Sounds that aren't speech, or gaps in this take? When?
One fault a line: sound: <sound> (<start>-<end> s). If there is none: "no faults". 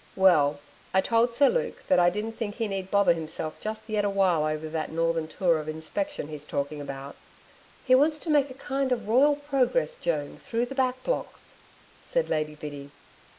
no faults